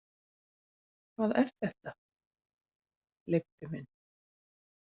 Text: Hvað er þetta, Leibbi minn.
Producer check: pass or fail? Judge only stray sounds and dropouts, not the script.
pass